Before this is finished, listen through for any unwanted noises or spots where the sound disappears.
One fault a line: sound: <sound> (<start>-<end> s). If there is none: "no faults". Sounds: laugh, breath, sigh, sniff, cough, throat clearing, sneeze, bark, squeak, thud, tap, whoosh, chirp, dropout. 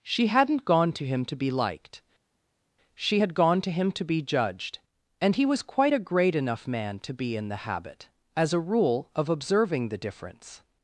no faults